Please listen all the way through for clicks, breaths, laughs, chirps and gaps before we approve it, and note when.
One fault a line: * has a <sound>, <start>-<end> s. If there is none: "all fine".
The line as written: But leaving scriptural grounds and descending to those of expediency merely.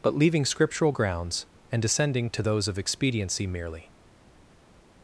all fine